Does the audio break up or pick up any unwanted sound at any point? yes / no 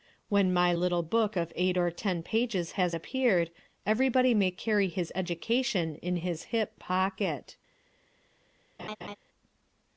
yes